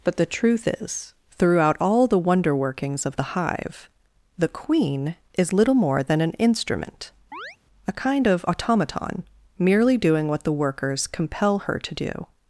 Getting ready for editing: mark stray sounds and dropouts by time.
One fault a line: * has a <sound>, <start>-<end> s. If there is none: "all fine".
* has a chirp, 7.3-7.6 s